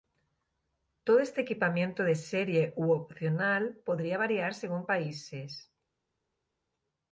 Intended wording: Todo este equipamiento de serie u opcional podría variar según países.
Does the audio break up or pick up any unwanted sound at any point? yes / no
no